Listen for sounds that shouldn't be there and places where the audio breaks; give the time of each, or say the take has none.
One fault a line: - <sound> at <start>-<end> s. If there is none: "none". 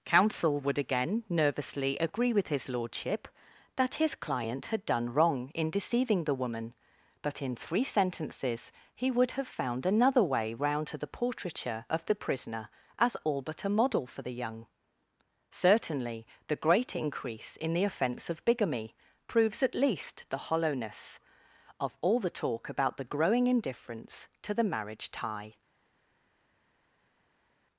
none